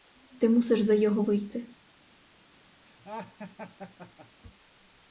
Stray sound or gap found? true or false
true